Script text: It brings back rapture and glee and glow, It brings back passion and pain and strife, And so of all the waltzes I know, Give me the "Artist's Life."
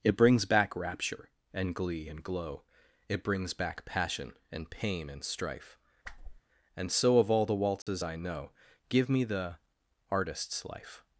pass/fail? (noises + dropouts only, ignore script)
fail